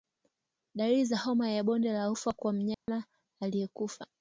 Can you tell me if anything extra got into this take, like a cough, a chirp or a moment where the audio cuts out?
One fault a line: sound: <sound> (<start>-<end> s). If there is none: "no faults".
sound: dropout (2.7-2.9 s)